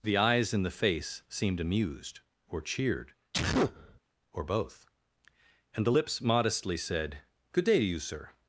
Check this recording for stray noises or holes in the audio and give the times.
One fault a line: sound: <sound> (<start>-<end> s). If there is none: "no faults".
sound: sneeze (3.3-4.0 s)